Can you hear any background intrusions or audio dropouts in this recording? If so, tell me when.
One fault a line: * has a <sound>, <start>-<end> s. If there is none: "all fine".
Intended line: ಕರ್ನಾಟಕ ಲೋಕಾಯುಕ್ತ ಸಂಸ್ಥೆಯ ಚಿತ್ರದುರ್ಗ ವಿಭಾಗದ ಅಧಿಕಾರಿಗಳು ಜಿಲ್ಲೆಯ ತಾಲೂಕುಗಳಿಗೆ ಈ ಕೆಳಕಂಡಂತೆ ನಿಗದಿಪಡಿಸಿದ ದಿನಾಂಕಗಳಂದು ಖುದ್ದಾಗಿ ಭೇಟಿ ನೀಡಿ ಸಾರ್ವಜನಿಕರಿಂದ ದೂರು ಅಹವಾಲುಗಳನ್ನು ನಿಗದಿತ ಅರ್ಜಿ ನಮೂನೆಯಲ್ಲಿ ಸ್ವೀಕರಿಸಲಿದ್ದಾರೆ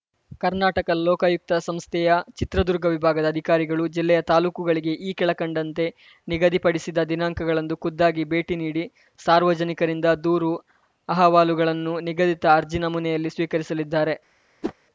* has a whoosh, 14.6-14.7 s